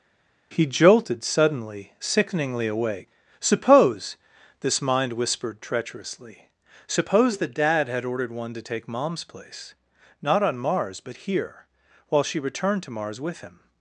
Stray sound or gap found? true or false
false